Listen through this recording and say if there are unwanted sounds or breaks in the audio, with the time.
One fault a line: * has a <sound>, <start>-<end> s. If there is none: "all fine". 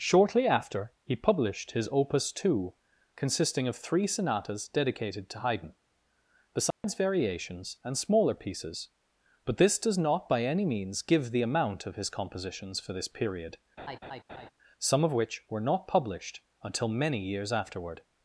* has a dropout, 6.7-6.8 s
* has a laugh, 13.8-14.5 s